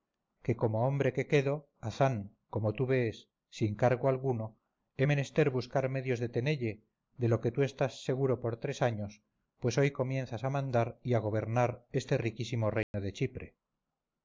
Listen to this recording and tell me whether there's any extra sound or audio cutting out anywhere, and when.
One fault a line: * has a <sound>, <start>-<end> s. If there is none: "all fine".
* has a dropout, 12.8-12.9 s